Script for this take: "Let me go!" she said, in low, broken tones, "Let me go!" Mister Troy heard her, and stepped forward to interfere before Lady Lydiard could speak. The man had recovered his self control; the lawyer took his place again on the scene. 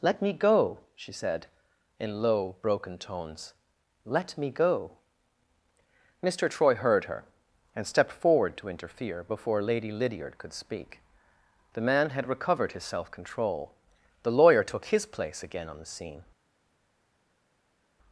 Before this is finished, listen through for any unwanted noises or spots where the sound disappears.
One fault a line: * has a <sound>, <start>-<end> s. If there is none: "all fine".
all fine